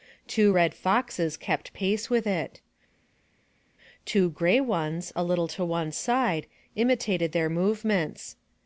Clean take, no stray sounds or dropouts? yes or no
yes